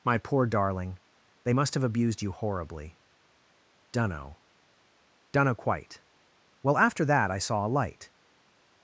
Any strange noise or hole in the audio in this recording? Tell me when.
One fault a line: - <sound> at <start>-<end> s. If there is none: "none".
none